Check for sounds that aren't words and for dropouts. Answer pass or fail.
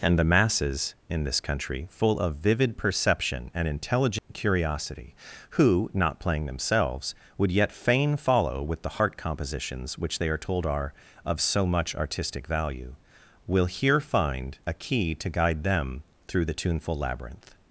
fail